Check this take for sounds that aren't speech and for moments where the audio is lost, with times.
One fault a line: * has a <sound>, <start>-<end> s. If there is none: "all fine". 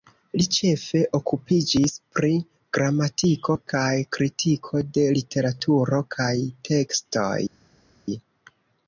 all fine